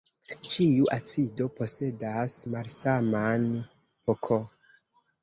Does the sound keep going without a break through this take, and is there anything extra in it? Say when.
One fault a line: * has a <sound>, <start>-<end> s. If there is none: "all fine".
all fine